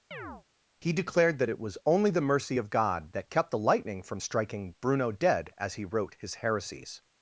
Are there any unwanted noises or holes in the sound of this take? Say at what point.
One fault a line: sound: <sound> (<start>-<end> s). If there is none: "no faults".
sound: chirp (0.1-0.4 s)